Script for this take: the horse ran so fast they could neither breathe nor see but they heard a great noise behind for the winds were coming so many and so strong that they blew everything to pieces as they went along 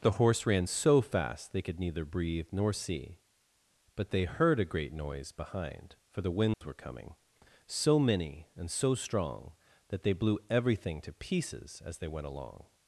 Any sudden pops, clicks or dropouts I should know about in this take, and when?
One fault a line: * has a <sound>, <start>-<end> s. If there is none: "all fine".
* has a dropout, 6.5-6.6 s